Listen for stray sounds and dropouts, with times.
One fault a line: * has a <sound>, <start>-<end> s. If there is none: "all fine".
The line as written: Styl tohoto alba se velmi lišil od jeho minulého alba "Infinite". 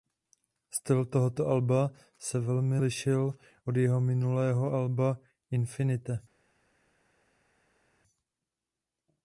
all fine